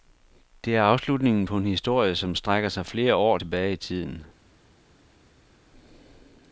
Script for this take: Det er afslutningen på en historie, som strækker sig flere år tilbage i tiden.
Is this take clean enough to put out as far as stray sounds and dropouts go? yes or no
yes